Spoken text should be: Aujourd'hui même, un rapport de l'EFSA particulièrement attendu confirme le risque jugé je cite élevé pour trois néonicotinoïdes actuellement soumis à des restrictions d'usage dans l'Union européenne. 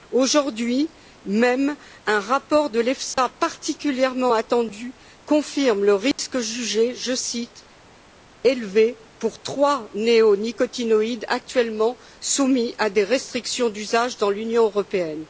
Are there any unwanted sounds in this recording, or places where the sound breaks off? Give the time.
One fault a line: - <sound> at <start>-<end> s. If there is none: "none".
- dropout at 3.1-3.2 s
- dropout at 6.1-6.2 s